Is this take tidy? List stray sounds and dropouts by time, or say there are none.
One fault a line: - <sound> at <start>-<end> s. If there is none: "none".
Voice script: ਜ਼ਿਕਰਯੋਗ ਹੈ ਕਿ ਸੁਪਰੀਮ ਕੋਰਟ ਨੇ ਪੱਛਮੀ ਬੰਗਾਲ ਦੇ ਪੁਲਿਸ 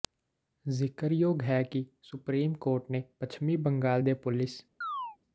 - chirp at 4.8-5.2 s